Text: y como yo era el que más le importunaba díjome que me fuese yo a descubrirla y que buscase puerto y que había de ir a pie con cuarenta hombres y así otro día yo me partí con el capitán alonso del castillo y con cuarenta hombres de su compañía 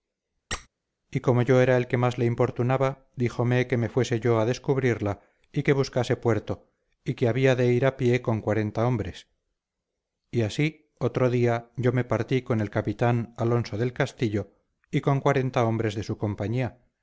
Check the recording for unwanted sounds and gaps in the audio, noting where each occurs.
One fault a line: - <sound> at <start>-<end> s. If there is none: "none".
- squeak at 0.5-0.7 s